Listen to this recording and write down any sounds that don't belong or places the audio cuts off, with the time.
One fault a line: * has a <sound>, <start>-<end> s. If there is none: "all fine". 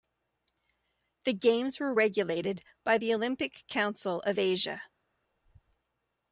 all fine